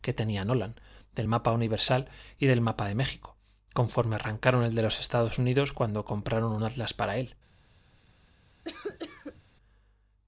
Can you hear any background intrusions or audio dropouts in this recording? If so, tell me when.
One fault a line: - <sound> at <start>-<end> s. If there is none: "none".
- cough at 8.6-9.4 s